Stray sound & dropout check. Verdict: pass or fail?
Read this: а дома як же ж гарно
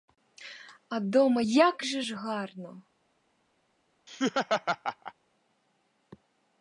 fail